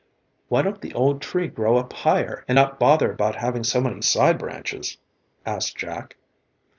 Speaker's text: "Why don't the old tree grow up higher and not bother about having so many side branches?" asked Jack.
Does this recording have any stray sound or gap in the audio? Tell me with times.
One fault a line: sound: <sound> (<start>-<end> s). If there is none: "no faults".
no faults